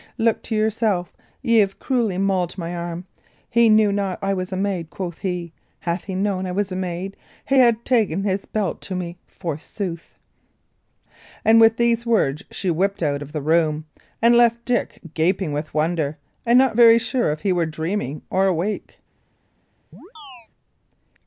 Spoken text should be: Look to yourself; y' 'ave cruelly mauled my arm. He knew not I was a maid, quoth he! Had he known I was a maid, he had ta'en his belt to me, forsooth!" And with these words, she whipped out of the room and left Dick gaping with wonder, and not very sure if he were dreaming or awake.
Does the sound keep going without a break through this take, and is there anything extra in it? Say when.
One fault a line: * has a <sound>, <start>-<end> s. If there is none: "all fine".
* has a chirp, 19.9-20.5 s